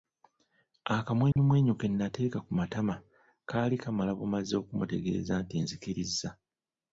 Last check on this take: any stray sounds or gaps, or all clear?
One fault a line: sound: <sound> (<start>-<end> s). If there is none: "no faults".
sound: dropout (1.3-1.4 s)